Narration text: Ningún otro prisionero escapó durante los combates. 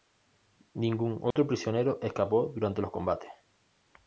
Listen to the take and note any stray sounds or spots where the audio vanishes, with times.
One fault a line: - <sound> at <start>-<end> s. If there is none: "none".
- dropout at 1.3-1.4 s